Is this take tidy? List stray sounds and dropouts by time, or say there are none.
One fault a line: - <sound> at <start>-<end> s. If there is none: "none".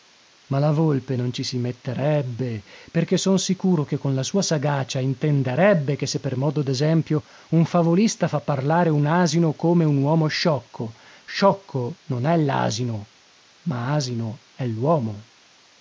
none